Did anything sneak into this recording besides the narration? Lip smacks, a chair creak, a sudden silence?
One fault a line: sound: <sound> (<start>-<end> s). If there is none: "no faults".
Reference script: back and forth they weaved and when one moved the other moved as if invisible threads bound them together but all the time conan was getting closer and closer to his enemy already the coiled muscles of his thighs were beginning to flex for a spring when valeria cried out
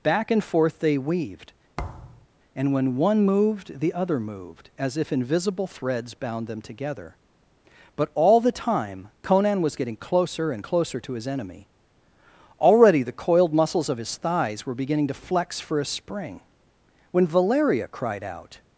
sound: thud (1.8-2.3 s)